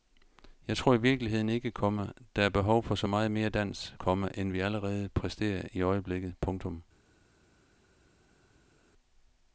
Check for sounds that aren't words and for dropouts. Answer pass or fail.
pass